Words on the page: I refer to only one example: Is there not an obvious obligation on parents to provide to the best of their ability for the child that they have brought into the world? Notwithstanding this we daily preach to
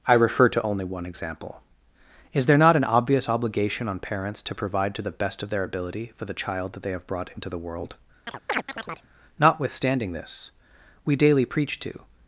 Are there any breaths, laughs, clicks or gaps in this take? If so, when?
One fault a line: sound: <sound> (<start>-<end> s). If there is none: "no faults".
sound: chirp (8.3-9.1 s)